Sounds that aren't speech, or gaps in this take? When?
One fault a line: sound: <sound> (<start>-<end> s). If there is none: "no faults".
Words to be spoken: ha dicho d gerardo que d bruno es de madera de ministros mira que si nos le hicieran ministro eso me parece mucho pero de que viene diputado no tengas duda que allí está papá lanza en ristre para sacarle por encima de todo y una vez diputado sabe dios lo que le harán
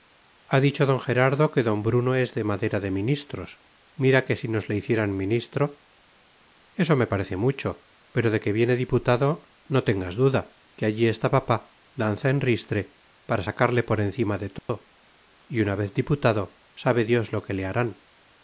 sound: dropout (14.6-14.7 s)